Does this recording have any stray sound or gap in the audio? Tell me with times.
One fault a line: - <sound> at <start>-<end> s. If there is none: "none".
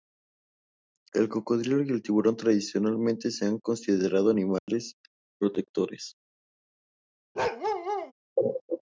- dropout at 4.6-4.7 s
- bark at 7.4-8.1 s